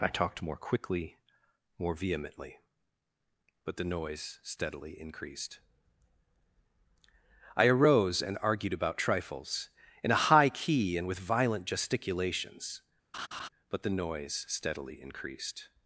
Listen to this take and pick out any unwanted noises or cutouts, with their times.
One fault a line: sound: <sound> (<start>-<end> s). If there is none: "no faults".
sound: laugh (13.1-13.5 s)